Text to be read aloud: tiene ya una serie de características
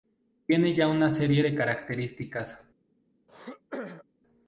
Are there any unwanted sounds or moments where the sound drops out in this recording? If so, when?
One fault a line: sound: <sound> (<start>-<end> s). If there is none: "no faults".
sound: throat clearing (3.3-4.0 s)